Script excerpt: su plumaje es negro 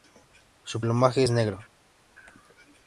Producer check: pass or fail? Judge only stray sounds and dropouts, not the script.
pass